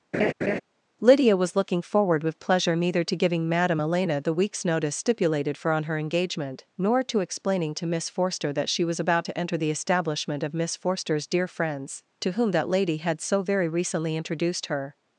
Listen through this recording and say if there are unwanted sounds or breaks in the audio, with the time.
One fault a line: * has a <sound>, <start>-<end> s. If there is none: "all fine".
* has a laugh, 0.1-0.6 s